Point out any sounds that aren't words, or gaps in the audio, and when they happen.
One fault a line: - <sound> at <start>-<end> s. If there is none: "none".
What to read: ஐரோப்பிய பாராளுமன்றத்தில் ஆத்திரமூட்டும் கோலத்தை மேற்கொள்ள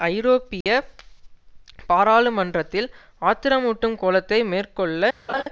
- dropout at 0.6-0.7 s
- laugh at 5.3-5.4 s